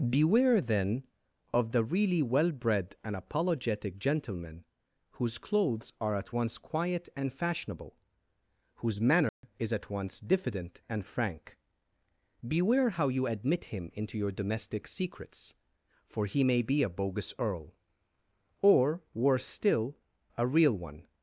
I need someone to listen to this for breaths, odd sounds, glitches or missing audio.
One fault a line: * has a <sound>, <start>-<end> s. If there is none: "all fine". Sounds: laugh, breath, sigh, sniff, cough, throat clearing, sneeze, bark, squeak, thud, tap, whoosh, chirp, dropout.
* has a dropout, 9.3-9.4 s